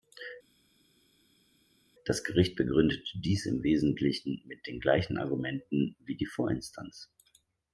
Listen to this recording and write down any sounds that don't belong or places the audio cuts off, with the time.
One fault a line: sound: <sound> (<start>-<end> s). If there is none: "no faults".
no faults